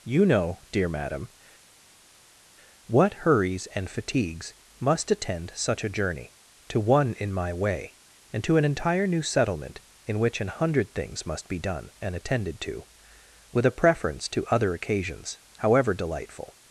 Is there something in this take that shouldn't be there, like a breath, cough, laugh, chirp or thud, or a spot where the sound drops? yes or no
no